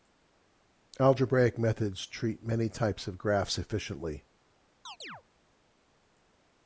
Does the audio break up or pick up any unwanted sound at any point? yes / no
yes